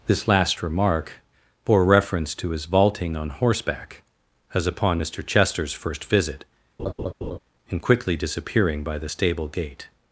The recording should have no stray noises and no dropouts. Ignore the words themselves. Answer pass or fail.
fail